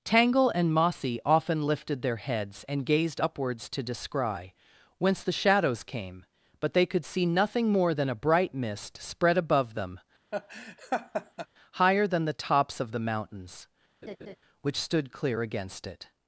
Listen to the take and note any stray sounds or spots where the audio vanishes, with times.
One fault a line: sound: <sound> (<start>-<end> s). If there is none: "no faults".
sound: laugh (10.3-11.5 s)
sound: laugh (14.0-14.4 s)